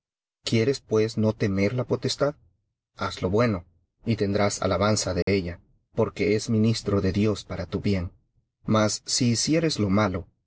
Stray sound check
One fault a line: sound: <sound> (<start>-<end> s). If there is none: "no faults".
sound: dropout (5.2-5.3 s)